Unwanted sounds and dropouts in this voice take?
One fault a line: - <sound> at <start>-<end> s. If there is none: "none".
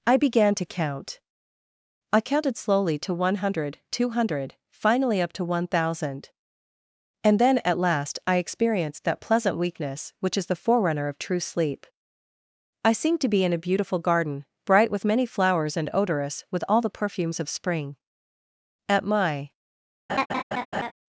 - laugh at 20.1-20.9 s